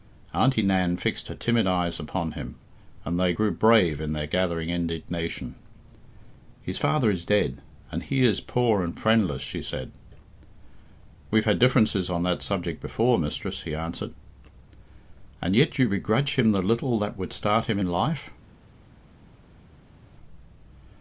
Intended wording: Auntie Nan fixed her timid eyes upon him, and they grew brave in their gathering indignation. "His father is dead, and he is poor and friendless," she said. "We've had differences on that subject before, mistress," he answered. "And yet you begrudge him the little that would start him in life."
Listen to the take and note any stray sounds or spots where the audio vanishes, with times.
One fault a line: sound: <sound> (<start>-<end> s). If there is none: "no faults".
no faults